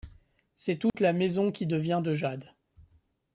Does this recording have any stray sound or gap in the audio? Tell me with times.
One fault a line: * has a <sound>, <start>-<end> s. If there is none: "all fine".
* has a dropout, 0.9-0.9 s